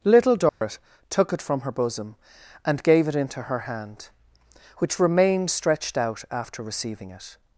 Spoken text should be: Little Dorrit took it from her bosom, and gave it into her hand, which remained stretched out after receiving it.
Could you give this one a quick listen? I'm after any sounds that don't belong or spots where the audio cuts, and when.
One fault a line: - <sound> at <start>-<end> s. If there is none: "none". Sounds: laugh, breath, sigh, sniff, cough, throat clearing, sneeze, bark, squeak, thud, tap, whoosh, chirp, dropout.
- dropout at 0.5-0.6 s